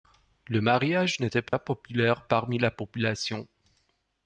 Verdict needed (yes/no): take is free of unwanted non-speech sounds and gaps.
no